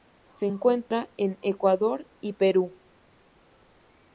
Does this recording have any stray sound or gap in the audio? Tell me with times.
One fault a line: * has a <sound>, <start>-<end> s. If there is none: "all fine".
* has a dropout, 0.9-0.9 s